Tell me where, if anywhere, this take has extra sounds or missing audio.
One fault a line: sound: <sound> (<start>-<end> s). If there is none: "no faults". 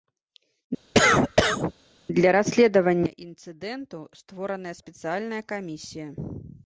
sound: cough (0.9-1.7 s)